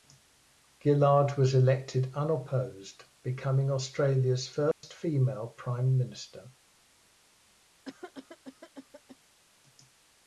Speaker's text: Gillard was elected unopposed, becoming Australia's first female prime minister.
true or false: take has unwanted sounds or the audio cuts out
true